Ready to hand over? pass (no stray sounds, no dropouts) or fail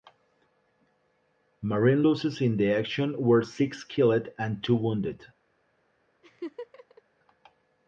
fail